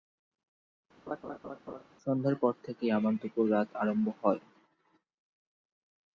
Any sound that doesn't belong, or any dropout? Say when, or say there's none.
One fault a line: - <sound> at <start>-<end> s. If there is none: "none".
- laugh at 1.1-1.8 s